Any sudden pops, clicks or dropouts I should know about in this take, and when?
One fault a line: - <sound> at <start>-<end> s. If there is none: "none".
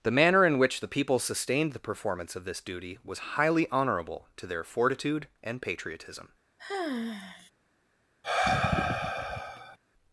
- sigh at 6.6-7.5 s
- sigh at 8.2-9.8 s